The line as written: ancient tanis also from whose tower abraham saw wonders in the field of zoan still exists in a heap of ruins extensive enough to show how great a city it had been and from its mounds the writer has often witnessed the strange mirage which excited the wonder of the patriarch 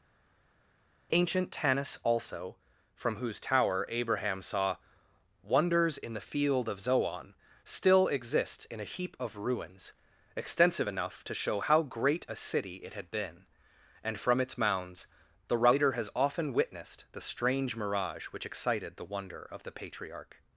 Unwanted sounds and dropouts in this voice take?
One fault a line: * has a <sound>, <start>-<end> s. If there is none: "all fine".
all fine